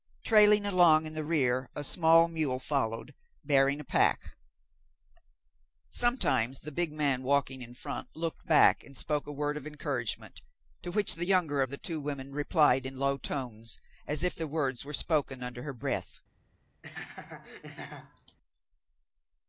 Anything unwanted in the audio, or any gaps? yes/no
yes